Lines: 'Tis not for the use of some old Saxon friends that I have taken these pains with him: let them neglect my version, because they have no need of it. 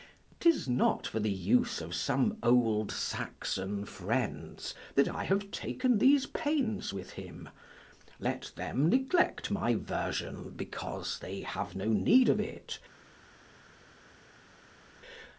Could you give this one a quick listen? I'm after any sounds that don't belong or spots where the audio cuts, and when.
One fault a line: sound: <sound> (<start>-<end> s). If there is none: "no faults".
no faults